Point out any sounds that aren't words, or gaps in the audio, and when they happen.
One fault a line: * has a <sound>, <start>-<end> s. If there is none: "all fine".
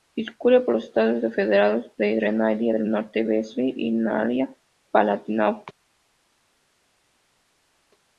all fine